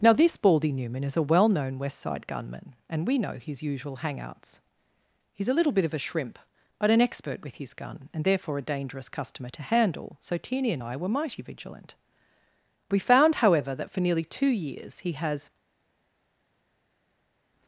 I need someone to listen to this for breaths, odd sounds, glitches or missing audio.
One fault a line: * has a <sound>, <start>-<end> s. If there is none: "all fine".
all fine